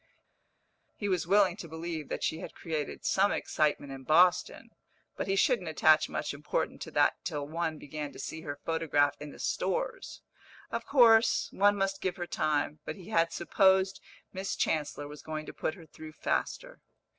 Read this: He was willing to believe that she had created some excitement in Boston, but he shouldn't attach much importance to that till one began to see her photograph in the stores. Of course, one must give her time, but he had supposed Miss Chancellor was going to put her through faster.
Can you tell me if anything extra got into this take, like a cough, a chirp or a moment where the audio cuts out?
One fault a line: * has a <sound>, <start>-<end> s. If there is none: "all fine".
all fine